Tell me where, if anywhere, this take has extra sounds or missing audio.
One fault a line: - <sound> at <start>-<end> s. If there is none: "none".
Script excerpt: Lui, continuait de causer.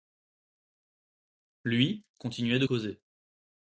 none